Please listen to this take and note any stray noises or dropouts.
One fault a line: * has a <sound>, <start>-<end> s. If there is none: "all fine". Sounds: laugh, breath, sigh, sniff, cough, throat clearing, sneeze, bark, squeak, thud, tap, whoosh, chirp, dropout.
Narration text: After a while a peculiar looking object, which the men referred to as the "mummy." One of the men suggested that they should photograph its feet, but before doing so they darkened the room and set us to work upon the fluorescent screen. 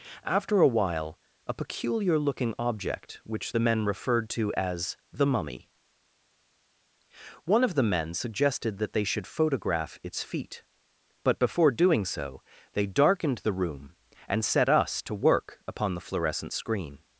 all fine